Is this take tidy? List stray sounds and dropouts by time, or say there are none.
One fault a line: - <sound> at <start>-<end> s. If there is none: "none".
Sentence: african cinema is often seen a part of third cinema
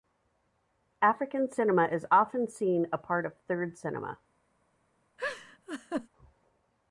- laugh at 5.2-6.1 s